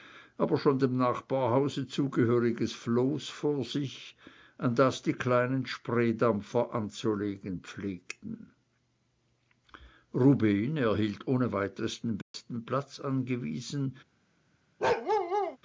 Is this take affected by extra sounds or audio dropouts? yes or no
yes